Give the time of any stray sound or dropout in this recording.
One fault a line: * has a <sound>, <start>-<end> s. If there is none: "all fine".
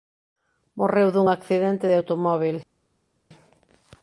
all fine